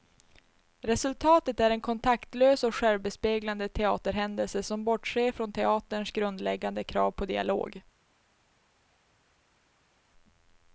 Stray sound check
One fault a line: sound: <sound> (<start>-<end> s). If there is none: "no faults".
no faults